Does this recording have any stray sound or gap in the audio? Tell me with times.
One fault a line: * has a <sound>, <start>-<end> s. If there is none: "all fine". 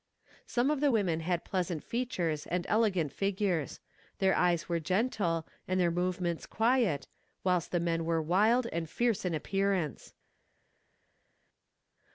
all fine